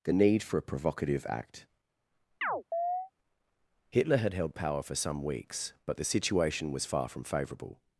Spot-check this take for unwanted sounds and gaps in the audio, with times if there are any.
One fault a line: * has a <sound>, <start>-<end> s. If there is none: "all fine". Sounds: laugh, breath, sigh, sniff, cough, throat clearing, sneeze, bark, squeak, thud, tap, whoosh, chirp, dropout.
* has a chirp, 2.4-3.1 s